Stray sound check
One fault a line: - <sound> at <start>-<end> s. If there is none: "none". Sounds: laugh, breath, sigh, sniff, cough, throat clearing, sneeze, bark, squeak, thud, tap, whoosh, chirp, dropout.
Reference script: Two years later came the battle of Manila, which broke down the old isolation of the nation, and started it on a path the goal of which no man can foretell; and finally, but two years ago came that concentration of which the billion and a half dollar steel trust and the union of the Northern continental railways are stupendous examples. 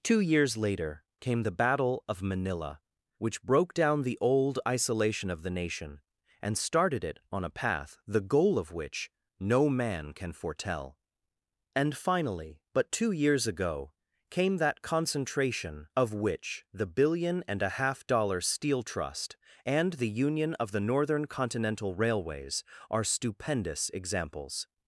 none